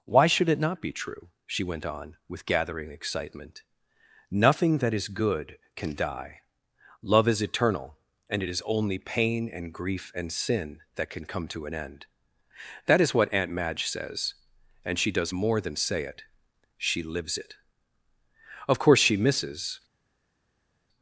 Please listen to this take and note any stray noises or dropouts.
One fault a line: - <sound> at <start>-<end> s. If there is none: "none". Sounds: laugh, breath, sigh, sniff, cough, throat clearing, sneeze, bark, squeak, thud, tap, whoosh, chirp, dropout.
none